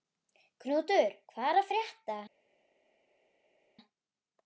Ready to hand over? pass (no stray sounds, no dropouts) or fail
pass